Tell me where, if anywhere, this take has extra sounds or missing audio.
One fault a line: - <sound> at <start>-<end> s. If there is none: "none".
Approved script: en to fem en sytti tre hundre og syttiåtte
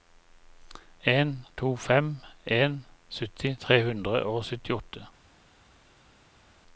none